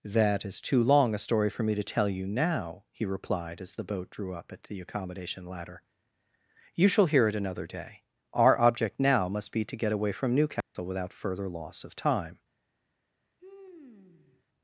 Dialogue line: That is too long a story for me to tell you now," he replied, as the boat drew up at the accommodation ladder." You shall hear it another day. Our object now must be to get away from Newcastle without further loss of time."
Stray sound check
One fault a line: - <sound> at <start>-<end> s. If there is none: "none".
- dropout at 10.6-10.8 s
- sigh at 13.4-14.4 s